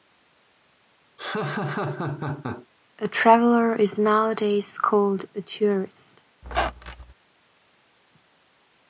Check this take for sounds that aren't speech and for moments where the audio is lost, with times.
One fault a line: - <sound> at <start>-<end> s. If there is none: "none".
- laugh at 1.2-2.7 s
- squeak at 6.4-7.1 s